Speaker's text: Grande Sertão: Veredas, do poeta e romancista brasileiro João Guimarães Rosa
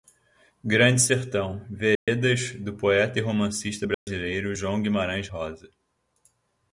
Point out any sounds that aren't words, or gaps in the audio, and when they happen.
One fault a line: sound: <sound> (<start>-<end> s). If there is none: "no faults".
sound: dropout (2.0-2.1 s)
sound: dropout (3.9-4.1 s)